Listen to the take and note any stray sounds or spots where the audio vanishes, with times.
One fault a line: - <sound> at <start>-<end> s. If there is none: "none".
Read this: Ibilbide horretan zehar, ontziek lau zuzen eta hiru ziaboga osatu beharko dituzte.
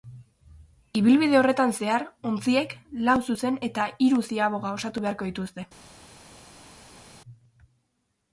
none